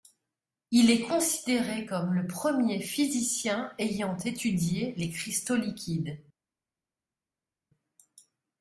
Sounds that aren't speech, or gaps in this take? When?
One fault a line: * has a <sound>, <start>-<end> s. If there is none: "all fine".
all fine